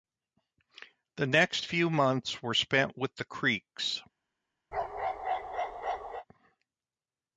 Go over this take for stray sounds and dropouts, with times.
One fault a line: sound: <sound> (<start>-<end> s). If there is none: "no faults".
sound: bark (4.7-6.3 s)